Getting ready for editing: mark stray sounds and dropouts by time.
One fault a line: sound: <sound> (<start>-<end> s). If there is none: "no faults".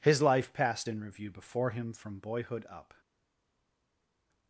no faults